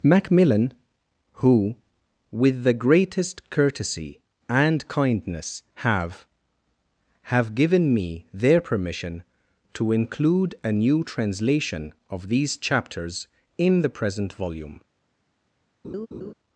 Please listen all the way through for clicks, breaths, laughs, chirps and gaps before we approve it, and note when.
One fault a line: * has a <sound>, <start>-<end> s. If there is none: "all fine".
* has a laugh, 15.8-16.3 s